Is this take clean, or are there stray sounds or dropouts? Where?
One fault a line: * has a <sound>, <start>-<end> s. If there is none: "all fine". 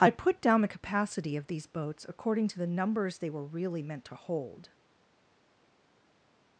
all fine